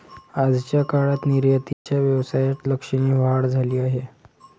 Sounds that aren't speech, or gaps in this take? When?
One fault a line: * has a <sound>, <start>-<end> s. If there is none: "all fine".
* has a dropout, 1.7-1.9 s